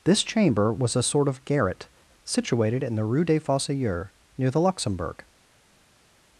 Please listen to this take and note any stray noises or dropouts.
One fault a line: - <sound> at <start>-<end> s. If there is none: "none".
none